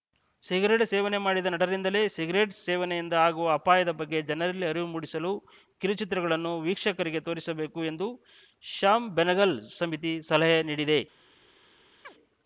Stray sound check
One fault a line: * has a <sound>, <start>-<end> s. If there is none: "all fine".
* has a chirp, 12.0-12.1 s